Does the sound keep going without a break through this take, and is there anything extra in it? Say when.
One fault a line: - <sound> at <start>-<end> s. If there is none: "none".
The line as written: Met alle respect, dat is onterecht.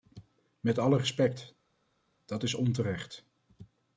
none